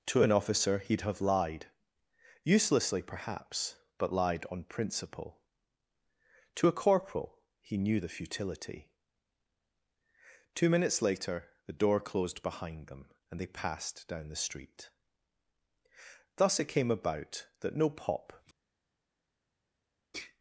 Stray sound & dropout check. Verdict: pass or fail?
pass